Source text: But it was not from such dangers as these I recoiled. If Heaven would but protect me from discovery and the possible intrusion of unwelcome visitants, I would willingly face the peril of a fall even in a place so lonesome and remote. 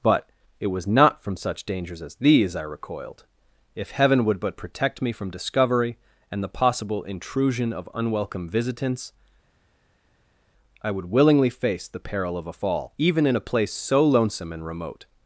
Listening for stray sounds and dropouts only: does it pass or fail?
pass